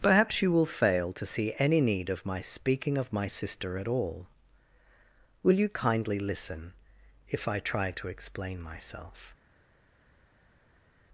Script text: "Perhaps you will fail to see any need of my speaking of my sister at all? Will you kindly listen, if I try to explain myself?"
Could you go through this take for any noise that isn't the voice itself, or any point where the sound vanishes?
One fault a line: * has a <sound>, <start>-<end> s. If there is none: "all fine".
all fine